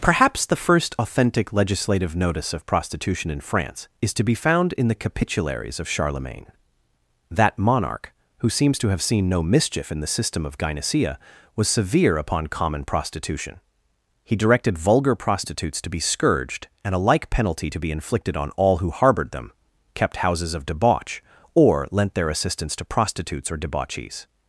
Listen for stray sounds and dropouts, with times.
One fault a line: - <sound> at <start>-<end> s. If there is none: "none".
none